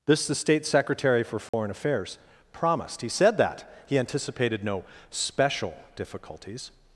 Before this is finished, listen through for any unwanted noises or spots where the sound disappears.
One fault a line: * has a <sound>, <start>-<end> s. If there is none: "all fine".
* has a dropout, 1.5-1.5 s